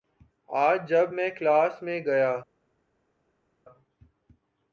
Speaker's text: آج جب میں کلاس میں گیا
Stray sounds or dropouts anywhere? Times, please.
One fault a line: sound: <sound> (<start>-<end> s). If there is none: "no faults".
no faults